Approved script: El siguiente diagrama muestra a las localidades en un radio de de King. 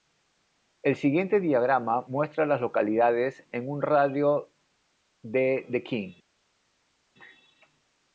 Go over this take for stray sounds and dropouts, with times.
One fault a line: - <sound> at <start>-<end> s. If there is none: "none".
none